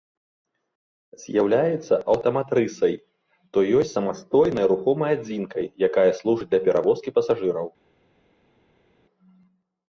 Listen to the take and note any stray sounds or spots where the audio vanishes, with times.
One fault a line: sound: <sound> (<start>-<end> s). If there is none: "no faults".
no faults